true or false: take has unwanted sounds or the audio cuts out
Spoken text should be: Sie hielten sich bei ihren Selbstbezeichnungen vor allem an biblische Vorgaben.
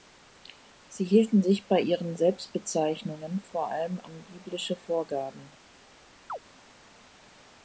true